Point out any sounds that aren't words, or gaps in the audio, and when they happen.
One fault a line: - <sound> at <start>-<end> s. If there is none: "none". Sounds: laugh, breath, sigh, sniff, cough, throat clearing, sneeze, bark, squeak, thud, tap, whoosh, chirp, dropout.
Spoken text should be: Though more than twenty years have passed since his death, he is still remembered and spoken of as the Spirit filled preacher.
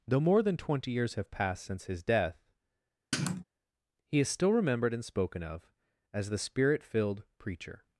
- sniff at 3.1-3.4 s